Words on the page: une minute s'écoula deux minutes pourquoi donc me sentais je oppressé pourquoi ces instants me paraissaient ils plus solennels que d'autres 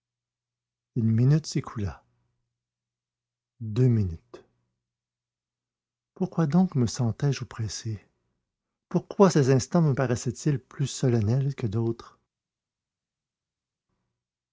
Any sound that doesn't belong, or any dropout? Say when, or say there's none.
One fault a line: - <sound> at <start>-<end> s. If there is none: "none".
none